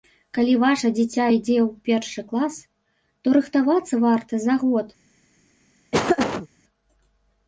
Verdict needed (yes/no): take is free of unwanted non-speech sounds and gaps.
no